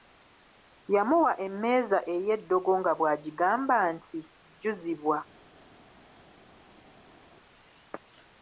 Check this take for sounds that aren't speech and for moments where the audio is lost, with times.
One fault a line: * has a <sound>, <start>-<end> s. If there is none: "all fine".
all fine